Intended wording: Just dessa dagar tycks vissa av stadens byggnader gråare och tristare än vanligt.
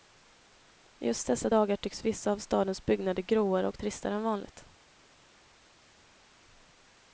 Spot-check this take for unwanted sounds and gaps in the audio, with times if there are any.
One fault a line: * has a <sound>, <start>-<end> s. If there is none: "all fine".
all fine